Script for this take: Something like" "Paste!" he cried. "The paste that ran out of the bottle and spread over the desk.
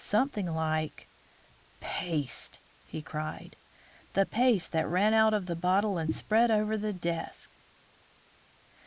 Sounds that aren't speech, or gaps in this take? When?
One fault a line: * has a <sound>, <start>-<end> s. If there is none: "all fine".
all fine